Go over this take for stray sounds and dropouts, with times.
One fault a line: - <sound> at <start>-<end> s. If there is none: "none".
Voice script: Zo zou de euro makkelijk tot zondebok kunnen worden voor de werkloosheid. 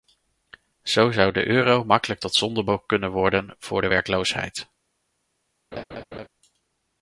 - laugh at 5.7-6.3 s